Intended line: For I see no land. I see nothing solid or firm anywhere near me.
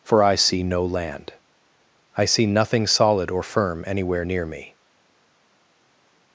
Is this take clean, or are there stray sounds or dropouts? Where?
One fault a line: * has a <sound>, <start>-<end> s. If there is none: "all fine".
all fine